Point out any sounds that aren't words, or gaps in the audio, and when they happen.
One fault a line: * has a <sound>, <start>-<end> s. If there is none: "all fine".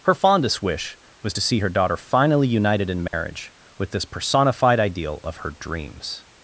* has a dropout, 3.1-3.1 s